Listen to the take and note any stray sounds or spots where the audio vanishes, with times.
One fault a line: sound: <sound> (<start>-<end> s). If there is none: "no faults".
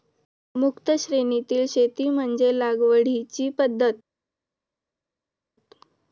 no faults